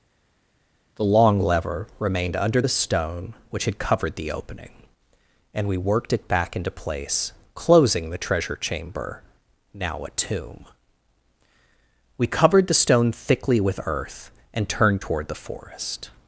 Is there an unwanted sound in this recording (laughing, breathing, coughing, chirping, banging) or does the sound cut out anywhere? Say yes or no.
no